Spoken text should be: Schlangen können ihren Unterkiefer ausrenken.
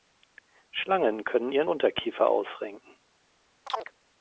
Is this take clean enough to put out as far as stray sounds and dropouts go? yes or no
no